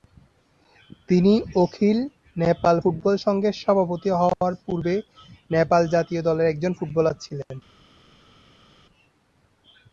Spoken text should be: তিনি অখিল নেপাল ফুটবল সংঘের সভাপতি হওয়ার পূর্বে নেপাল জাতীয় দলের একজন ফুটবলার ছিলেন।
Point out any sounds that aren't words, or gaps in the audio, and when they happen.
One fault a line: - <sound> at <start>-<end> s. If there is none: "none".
none